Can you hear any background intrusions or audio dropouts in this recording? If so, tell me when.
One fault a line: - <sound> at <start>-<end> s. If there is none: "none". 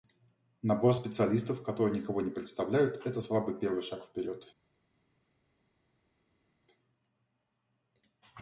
none